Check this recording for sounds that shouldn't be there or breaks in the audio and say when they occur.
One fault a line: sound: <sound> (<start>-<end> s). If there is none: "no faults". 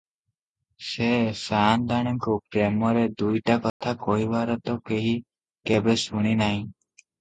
sound: dropout (3.7-3.8 s)